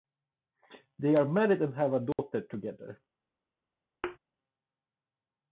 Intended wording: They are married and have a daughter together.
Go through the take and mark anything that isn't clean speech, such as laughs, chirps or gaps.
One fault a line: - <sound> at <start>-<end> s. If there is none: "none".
- dropout at 2.1-2.2 s
- thud at 4.0-4.2 s